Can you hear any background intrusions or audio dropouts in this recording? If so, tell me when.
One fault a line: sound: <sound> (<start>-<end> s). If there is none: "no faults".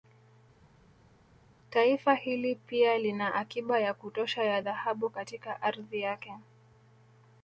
no faults